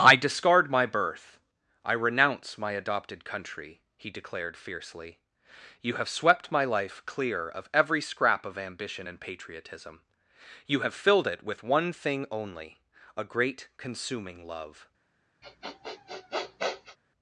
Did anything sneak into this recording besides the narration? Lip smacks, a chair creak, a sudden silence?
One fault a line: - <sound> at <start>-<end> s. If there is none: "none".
- sniff at 15.4-17.0 s